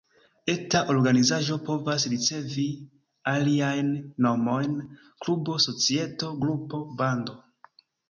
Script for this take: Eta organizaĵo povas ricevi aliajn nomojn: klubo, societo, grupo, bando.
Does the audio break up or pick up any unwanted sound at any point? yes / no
no